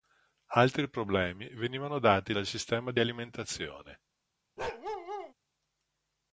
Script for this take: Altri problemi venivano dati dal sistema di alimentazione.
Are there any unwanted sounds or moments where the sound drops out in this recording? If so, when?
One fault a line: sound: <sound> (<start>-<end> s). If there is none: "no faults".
sound: bark (4.6-5.3 s)